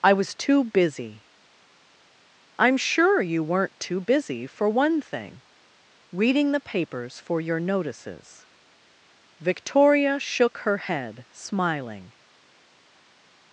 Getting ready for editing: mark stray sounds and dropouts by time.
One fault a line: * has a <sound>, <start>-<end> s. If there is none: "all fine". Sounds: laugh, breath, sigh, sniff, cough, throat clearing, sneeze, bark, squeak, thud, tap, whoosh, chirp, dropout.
all fine